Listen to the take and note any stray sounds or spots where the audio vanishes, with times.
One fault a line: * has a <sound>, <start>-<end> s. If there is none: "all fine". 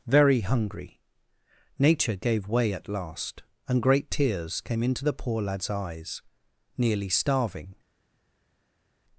all fine